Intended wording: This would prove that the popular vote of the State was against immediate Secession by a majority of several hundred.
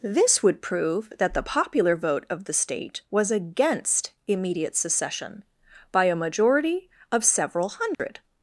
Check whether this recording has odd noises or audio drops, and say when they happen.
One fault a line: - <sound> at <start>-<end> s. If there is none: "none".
- dropout at 7.9-8.0 s